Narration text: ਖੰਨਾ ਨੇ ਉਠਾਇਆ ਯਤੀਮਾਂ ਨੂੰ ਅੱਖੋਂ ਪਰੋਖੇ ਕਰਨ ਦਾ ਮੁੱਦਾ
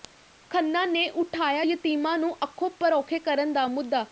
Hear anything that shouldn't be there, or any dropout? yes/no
no